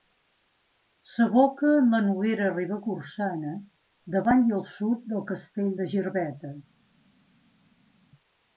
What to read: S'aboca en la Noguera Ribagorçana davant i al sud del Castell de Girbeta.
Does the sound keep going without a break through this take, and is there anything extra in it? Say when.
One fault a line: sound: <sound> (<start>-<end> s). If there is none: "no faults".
no faults